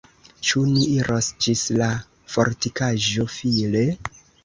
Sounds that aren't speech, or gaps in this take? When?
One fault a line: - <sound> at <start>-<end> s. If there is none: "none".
none